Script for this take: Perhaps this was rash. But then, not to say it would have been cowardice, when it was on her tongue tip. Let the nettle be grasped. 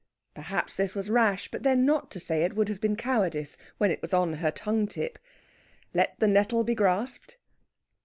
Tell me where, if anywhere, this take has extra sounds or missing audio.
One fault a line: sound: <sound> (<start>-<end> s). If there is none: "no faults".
no faults